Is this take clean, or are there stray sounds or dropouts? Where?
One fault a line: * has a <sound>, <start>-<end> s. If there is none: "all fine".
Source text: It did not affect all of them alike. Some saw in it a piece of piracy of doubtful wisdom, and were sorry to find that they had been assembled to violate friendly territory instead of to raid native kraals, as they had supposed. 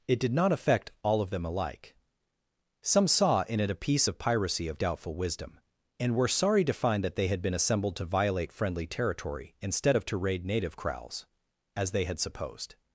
all fine